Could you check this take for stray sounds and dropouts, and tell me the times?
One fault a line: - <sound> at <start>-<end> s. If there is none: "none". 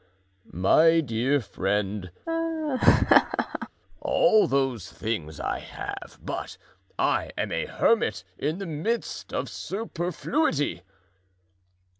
- laugh at 2.3-3.7 s